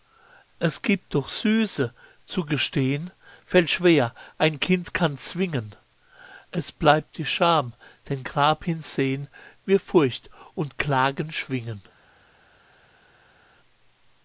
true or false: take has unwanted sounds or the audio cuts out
false